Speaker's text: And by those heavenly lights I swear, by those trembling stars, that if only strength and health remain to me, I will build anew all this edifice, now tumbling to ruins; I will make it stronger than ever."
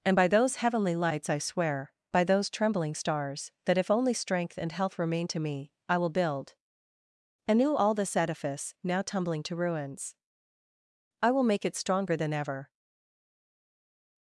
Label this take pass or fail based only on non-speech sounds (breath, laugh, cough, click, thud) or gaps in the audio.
pass